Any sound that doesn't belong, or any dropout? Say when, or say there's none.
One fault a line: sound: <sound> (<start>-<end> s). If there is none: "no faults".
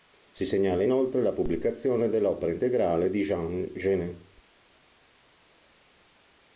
no faults